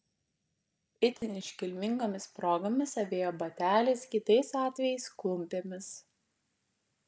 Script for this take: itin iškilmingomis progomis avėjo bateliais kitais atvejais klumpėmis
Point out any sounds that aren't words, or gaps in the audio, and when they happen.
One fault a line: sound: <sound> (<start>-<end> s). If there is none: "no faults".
sound: dropout (1.2-1.2 s)